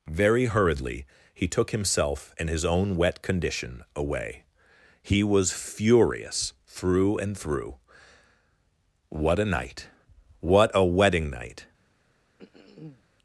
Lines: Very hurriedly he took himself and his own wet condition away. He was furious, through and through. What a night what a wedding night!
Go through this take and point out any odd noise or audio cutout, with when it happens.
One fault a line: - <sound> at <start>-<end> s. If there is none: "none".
- throat clearing at 12.4-13.0 s